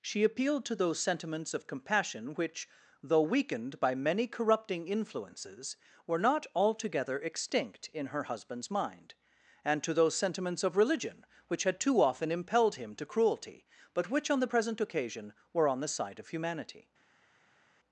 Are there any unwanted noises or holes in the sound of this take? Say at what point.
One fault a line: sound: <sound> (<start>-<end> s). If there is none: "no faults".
no faults